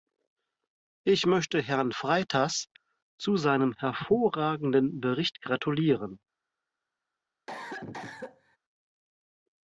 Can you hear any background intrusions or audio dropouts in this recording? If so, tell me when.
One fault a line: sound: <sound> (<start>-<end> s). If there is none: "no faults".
sound: cough (7.5-8.6 s)